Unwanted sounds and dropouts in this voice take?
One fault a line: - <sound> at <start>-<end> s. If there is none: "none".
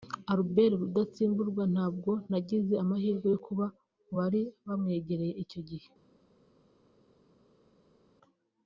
none